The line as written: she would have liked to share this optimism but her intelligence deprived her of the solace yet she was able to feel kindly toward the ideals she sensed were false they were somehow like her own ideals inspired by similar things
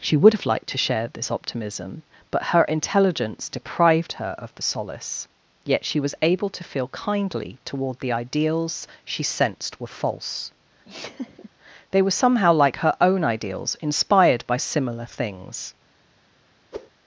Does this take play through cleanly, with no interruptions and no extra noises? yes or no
no